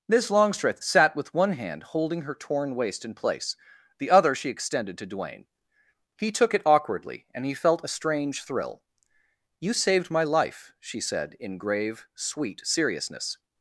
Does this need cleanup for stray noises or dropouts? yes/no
no